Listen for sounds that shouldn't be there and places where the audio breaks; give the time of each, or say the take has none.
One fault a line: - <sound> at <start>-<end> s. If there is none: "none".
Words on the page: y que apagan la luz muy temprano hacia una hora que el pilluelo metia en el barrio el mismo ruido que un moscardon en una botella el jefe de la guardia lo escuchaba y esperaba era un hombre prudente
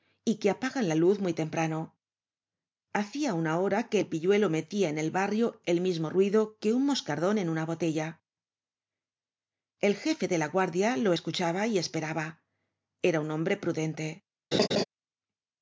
- laugh at 14.5-14.8 s